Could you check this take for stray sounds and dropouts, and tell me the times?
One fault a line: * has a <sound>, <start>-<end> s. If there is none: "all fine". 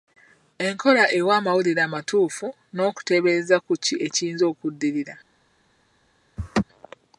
* has a laugh, 6.4-6.6 s